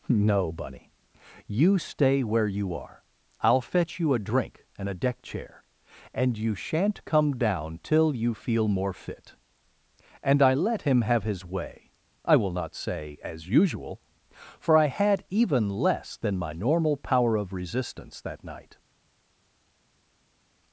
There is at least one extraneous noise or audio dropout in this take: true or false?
false